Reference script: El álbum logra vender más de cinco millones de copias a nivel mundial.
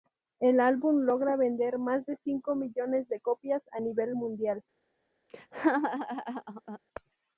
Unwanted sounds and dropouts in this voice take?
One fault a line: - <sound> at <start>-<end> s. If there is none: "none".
- laugh at 5.3-6.8 s